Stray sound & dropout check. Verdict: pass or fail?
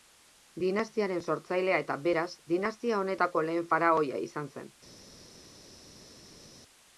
pass